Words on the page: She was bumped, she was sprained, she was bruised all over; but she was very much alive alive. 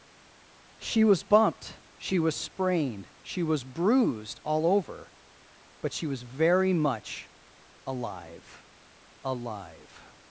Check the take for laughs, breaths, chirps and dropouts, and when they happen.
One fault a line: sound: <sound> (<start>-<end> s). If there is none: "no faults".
no faults